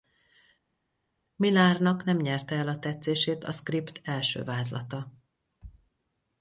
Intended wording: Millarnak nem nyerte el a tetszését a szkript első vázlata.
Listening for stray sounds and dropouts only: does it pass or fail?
pass